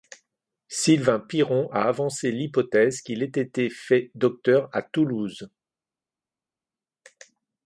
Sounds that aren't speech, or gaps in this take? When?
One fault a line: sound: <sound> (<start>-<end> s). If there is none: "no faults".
no faults